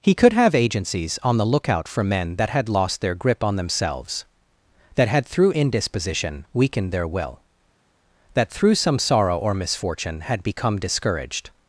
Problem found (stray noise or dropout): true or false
false